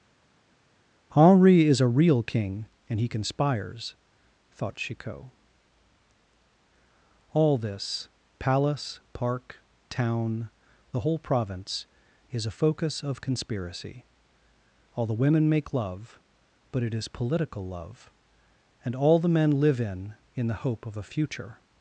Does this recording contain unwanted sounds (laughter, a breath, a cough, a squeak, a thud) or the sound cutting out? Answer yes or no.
no